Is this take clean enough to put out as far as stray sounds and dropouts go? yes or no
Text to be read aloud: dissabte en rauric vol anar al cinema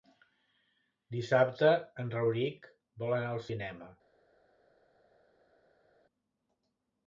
yes